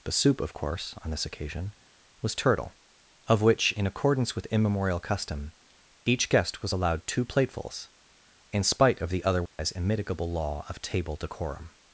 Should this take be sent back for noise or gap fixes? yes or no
yes